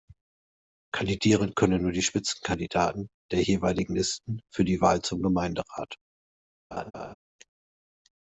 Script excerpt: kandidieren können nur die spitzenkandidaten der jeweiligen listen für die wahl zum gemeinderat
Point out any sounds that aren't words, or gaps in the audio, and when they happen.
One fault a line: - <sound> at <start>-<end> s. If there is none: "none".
- laugh at 6.7-7.1 s